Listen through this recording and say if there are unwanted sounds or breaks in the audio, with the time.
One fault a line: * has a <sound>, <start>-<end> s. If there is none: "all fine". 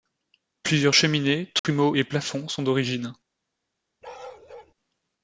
* has a dropout, 1.6-1.6 s
* has a bark, 4.0-4.7 s